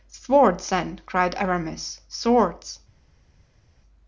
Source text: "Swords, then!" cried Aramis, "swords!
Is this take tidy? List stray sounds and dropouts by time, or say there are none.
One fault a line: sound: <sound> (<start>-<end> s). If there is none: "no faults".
no faults